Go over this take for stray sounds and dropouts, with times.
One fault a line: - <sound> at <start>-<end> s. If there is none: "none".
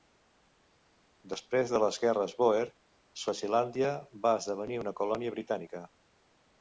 none